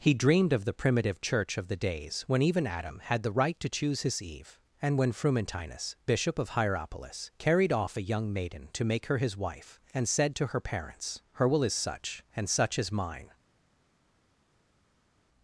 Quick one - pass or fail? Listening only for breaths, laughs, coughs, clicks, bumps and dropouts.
pass